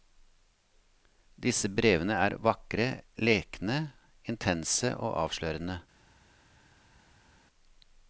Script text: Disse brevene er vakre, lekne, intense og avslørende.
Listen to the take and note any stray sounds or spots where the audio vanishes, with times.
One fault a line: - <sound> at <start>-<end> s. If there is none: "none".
none